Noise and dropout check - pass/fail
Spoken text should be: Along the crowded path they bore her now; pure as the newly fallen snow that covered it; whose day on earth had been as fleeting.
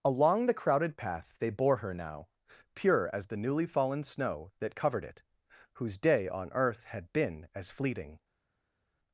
pass